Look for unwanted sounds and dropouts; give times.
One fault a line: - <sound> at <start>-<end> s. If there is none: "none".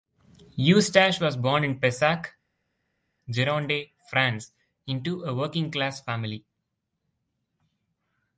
none